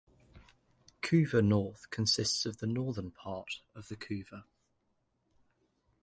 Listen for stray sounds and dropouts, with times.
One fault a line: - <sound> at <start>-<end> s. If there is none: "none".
none